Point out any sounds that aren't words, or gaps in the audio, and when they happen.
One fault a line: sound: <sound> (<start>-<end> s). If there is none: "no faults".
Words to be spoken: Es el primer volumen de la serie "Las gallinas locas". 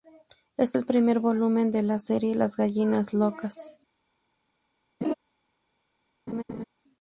sound: laugh (5.0-5.1 s)
sound: laugh (6.3-6.6 s)